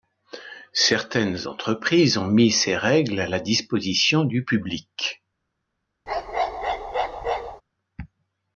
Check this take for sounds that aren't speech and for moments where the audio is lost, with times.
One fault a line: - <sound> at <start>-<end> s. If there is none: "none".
- bark at 6.1-7.6 s